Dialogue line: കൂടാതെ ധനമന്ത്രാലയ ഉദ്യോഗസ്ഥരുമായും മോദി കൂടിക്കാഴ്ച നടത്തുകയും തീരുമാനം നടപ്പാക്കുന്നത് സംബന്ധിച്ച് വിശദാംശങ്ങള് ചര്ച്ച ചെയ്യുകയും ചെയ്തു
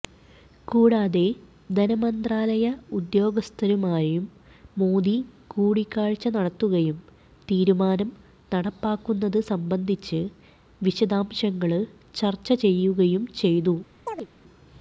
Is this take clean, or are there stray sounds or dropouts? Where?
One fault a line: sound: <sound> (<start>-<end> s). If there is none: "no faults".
sound: chirp (14.1-14.3 s)